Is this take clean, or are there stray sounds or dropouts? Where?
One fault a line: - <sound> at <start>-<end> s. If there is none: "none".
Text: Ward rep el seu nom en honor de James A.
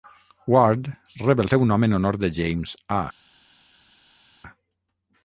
none